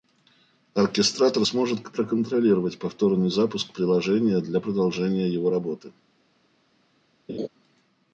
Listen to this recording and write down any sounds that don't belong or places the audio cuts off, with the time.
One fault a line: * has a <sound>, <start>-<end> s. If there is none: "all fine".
* has a laugh, 7.3-7.5 s